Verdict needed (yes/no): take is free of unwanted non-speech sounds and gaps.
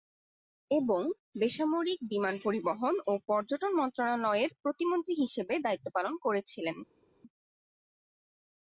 yes